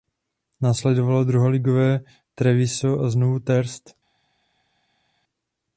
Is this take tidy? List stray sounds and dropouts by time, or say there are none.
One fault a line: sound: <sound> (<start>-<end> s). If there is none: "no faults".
no faults